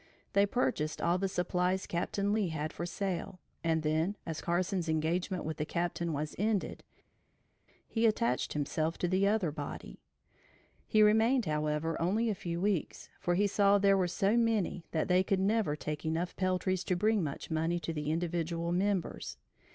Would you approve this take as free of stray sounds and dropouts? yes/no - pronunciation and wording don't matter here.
yes